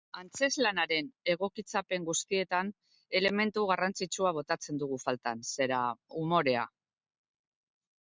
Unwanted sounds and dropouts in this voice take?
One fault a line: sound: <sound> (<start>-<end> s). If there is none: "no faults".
no faults